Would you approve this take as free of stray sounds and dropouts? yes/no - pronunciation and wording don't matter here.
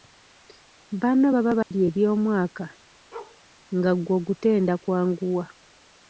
no